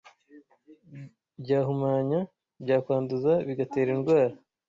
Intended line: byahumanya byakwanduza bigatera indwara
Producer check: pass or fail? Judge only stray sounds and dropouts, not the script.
pass